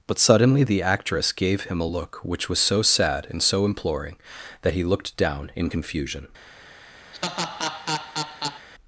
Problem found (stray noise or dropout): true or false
true